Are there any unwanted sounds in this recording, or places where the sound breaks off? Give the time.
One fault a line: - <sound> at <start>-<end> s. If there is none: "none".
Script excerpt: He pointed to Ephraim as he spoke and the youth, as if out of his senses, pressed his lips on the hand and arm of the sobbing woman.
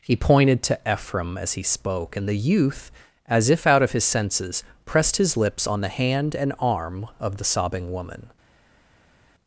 none